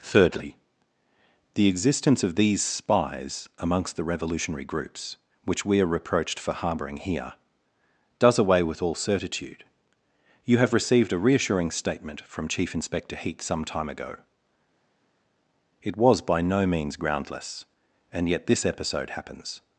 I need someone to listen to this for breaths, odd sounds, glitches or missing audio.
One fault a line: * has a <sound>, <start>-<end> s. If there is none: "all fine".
all fine